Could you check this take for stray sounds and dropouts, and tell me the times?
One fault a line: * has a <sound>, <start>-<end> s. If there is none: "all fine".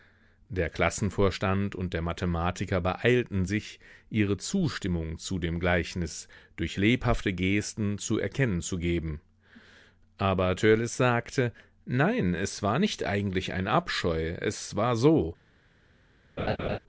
* has a laugh, 16.4-16.8 s